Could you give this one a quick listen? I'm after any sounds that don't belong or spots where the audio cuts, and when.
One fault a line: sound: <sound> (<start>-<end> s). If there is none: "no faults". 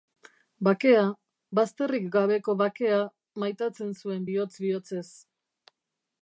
no faults